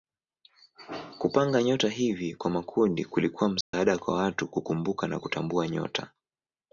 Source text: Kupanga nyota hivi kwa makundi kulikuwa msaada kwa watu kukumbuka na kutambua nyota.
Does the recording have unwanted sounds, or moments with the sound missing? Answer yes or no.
yes